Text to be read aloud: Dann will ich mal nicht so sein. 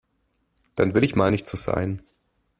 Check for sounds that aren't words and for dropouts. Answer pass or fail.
pass